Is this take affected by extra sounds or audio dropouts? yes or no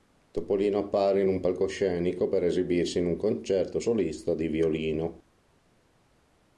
no